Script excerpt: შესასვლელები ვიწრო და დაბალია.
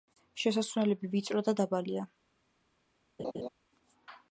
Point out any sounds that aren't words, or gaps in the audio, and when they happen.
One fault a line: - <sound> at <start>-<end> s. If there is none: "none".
- laugh at 3.2-3.5 s